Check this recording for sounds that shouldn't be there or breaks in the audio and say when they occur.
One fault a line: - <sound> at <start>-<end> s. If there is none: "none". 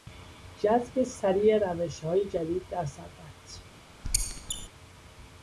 - squeak at 4.0-4.7 s